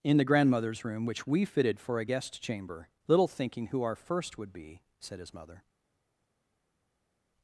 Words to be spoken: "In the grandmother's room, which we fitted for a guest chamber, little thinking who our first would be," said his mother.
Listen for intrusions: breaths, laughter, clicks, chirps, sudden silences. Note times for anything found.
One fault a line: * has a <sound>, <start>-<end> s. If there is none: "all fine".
all fine